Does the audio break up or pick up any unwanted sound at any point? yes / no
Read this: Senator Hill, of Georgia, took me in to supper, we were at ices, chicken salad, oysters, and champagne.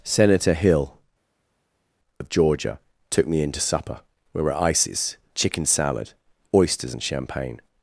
no